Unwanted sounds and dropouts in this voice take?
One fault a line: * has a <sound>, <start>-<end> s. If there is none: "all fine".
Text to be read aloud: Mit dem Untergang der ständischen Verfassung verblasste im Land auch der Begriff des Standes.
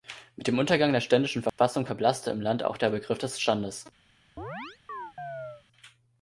* has a dropout, 1.5-1.6 s
* has a chirp, 4.4-5.6 s